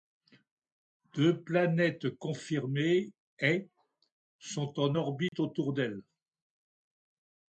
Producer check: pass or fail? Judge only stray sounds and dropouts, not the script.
fail